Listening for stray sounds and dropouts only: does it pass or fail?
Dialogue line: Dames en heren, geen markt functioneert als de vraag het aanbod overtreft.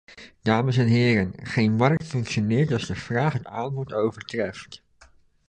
fail